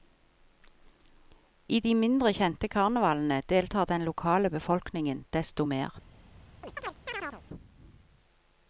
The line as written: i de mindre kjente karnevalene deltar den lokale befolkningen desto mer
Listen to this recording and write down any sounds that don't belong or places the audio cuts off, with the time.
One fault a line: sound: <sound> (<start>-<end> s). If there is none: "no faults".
sound: chirp (6.6-7.4 s)